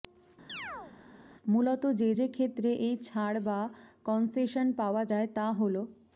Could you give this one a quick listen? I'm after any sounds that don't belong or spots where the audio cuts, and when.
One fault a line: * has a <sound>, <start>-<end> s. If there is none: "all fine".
* has a chirp, 0.5-0.9 s